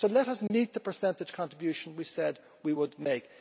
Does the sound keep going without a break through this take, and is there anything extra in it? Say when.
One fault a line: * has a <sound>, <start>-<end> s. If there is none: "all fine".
* has a dropout, 0.5-0.5 s